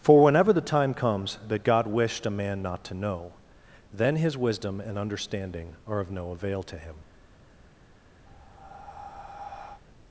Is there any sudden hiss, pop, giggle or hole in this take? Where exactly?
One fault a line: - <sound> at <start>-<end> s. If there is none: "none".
- breath at 8.3-9.8 s